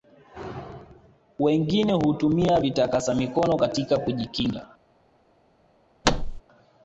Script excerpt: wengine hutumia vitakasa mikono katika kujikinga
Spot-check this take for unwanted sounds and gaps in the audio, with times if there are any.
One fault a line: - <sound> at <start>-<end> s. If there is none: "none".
- thud at 6.0-6.4 s